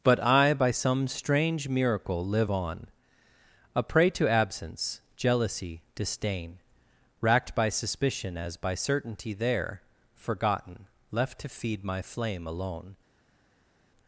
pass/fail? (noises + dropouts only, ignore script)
pass